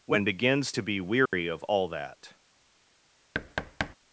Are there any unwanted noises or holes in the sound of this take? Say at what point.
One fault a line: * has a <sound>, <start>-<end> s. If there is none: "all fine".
* has a dropout, 1.3-1.3 s
* has a thud, 3.3-4.0 s